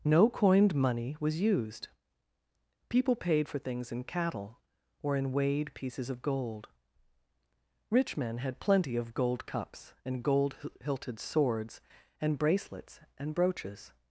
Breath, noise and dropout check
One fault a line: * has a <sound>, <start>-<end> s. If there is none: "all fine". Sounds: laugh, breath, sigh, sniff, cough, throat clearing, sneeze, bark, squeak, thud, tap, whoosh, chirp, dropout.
all fine